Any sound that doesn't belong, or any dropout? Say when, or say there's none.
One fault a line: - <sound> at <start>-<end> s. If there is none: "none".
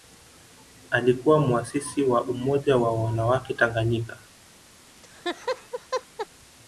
- laugh at 5.0-6.3 s